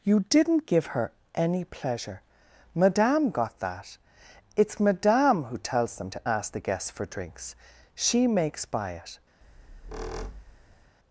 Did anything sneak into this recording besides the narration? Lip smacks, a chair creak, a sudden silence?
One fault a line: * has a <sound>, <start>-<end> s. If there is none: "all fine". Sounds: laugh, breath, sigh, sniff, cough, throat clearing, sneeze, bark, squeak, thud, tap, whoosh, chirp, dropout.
* has a squeak, 9.4-10.9 s